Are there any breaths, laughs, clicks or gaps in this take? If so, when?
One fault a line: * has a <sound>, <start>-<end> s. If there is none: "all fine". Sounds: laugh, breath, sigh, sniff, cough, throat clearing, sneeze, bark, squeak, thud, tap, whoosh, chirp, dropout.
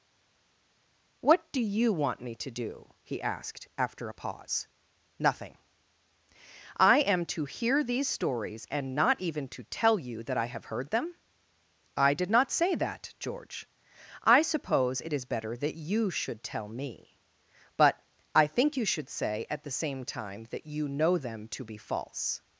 all fine